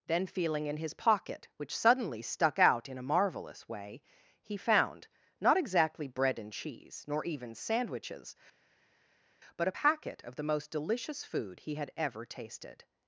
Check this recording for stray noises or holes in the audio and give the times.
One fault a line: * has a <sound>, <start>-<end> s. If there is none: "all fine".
all fine